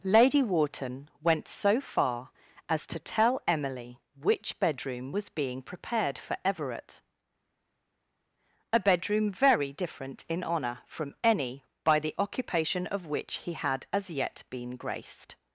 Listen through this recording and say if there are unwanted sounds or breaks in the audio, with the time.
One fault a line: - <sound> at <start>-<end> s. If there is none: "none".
none